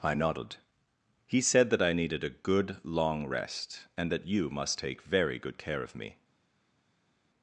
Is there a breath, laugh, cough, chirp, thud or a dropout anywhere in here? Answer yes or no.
no